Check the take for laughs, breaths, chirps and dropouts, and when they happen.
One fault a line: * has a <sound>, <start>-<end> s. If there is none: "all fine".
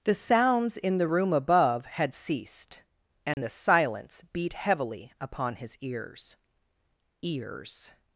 * has a dropout, 3.3-3.4 s